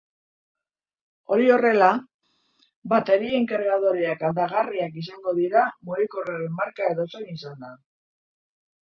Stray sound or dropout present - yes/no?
no